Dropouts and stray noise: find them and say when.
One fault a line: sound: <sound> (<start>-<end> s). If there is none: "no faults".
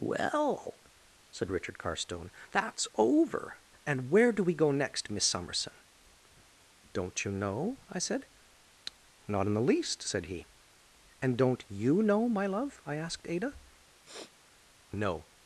sound: sniff (14.0-14.4 s)